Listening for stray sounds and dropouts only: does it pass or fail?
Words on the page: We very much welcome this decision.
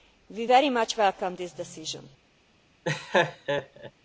fail